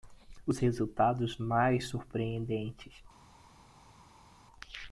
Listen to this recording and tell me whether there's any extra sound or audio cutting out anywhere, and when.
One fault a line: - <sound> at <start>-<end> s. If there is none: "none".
none